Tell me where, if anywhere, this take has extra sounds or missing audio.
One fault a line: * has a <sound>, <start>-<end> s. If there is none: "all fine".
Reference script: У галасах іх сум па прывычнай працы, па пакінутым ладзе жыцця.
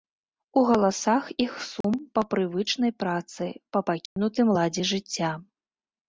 * has a dropout, 1.8-1.8 s
* has a dropout, 4.1-4.2 s